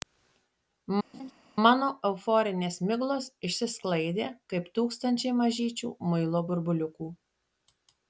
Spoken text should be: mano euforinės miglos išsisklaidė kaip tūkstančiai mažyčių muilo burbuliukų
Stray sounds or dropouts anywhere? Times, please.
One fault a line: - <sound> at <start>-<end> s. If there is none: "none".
- laugh at 1.1-1.3 s